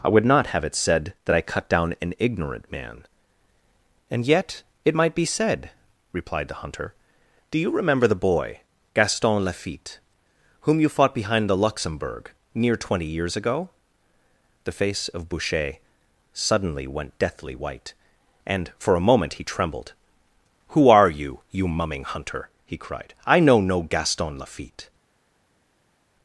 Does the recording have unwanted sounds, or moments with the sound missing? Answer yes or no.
no